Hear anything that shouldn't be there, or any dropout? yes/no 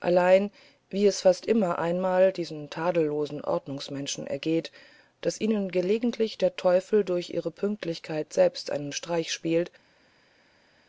no